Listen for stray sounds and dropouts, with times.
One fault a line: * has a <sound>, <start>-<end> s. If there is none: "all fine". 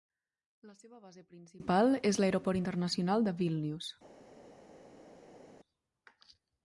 all fine